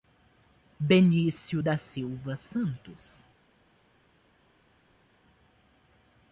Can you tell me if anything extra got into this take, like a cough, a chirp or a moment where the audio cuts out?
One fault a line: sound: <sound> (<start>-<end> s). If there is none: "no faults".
no faults